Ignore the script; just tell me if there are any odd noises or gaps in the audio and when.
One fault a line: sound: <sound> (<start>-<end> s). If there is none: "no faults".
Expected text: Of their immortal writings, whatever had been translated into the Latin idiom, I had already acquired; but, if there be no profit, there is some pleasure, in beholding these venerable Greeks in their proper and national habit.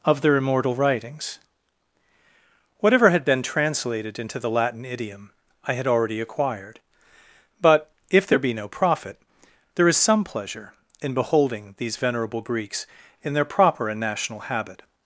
no faults